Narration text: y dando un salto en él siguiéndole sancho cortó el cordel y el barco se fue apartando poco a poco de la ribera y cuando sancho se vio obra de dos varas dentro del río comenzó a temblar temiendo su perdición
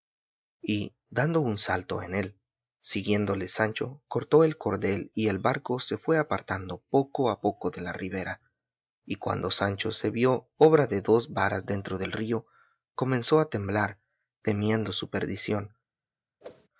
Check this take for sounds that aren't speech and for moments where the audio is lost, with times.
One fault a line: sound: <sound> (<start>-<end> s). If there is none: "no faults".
sound: whoosh (16.4-16.7 s)